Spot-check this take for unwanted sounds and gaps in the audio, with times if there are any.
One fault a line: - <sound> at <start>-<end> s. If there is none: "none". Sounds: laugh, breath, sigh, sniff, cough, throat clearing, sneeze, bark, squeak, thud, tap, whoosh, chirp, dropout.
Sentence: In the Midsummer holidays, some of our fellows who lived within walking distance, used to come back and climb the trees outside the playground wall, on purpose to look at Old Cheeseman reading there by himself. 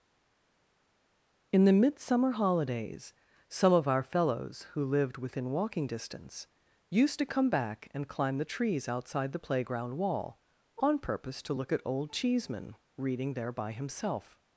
none